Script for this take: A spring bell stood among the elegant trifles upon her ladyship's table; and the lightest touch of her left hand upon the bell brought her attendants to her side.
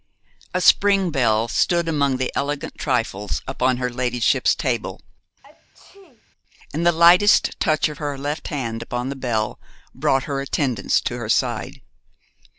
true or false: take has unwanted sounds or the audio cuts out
true